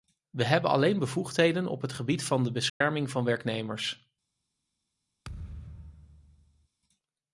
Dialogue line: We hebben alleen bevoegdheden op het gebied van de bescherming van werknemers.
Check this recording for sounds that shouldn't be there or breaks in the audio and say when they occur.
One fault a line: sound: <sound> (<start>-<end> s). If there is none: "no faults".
sound: dropout (2.7-2.8 s)
sound: thud (5.2-6.7 s)